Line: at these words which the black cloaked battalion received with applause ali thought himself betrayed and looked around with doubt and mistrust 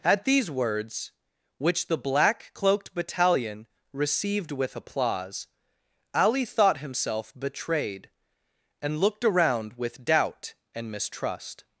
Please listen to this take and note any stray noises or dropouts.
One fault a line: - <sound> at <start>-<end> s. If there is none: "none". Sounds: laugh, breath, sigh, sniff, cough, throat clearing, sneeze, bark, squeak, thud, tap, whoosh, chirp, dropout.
none